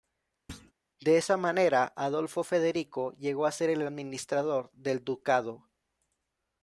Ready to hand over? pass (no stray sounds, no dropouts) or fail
fail